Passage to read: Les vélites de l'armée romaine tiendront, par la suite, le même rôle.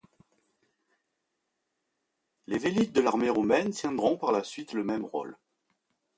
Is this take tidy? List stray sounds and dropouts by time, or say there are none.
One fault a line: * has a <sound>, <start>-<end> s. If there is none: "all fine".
all fine